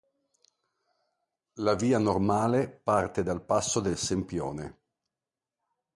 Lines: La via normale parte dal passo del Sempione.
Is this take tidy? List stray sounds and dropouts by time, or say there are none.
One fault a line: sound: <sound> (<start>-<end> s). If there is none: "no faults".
no faults